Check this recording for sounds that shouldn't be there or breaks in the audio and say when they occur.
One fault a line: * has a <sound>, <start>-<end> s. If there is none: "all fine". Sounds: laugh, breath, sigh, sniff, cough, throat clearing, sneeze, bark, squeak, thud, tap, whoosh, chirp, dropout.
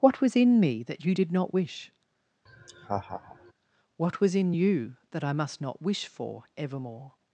* has a laugh, 2.5-3.5 s